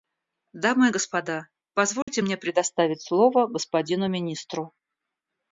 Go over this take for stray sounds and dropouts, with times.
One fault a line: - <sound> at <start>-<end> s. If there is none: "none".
- dropout at 2.0-2.1 s